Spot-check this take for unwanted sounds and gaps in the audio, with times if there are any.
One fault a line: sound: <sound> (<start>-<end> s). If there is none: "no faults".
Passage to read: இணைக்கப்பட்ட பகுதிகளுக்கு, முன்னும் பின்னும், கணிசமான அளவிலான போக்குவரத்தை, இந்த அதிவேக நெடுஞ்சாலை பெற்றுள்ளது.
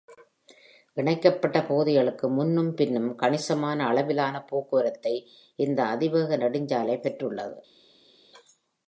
no faults